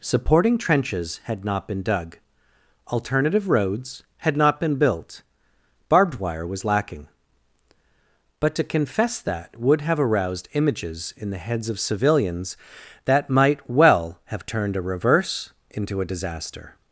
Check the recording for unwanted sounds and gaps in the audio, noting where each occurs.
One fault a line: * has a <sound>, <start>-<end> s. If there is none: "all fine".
all fine